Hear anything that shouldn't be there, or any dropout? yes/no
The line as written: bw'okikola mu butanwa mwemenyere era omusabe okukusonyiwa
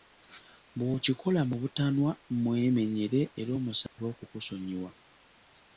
yes